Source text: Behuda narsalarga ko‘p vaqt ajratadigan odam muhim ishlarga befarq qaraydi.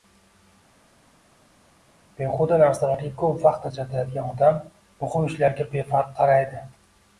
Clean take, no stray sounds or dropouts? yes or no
yes